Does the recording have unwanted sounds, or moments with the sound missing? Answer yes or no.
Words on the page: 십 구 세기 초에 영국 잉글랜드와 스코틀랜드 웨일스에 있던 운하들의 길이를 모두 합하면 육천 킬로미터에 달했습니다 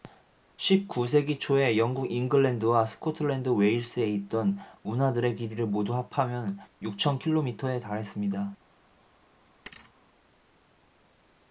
yes